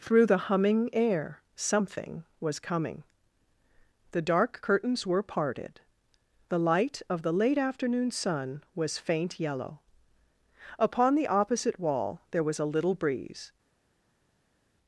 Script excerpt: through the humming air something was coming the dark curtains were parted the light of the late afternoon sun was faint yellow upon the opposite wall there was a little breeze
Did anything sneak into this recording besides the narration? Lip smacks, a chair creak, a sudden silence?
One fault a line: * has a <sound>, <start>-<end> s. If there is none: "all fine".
all fine